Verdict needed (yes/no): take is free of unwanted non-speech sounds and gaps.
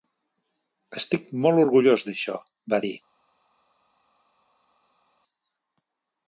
yes